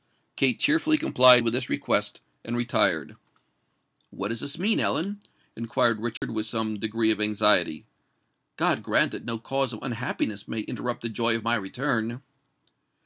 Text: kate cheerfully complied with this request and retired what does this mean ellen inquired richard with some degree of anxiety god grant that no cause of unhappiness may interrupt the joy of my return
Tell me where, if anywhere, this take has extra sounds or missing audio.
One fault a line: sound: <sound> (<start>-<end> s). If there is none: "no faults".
sound: dropout (6.2-6.2 s)